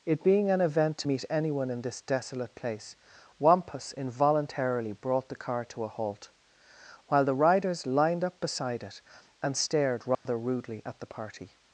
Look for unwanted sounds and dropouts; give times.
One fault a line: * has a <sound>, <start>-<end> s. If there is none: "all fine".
* has a dropout, 10.1-10.3 s